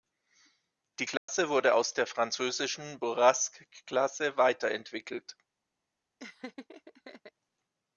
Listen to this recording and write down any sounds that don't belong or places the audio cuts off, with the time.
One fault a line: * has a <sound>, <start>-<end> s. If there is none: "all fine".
* has a dropout, 1.2-1.3 s
* has a laugh, 6.2-7.3 s